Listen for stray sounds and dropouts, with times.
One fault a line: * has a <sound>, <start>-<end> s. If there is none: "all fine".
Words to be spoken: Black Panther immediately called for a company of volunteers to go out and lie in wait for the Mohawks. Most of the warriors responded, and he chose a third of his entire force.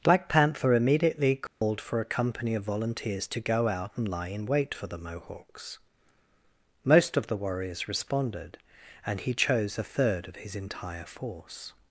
* has a dropout, 1.5-1.6 s